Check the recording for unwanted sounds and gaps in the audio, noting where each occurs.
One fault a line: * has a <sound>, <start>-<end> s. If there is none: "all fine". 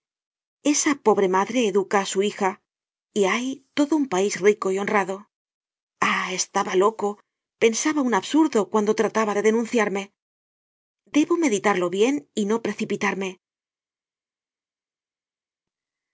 all fine